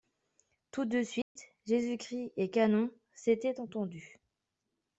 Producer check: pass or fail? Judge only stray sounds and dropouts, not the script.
fail